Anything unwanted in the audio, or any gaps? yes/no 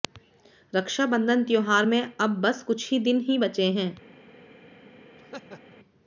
yes